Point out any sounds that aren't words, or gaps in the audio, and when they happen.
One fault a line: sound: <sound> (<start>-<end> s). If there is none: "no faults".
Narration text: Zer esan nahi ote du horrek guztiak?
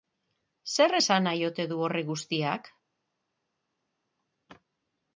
no faults